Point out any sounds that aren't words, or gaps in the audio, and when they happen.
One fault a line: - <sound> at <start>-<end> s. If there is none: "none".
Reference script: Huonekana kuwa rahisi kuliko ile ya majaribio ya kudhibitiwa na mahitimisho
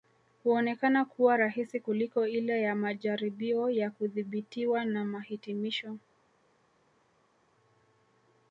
none